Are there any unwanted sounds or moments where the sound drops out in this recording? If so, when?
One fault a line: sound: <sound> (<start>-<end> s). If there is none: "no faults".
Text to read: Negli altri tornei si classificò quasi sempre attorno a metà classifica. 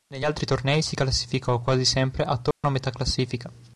sound: dropout (2.5-2.6 s)